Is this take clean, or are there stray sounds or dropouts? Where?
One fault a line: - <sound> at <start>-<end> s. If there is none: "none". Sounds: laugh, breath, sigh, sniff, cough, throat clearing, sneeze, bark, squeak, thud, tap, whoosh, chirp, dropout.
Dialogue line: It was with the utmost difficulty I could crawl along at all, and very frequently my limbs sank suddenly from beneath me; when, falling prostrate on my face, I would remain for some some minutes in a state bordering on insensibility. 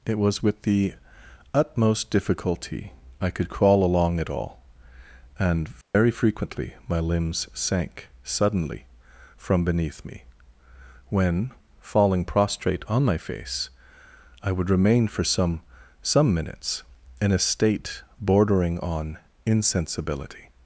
- dropout at 5.8-5.9 s